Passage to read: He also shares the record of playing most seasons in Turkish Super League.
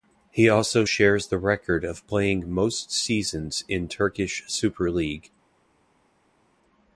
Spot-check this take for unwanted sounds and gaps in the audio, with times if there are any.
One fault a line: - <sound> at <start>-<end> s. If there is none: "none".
none